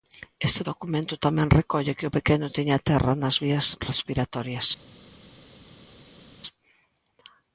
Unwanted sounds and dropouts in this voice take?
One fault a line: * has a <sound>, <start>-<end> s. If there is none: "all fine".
all fine